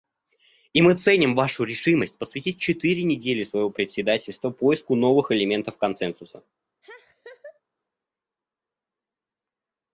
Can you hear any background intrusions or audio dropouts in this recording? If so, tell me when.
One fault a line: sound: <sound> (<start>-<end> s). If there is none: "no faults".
sound: laugh (6.8-7.6 s)